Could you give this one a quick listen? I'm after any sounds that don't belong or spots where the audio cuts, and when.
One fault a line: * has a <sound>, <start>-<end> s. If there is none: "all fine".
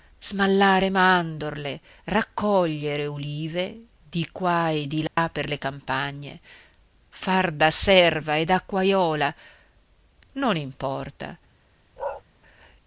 * has a dropout, 5.1-5.2 s
* has a bark, 12.0-12.2 s